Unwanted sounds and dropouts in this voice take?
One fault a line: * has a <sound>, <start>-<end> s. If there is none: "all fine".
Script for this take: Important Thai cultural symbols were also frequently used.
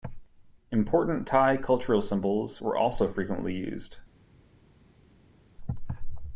all fine